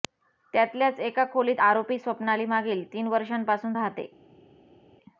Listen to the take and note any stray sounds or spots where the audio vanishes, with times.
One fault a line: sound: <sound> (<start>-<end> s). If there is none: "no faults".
no faults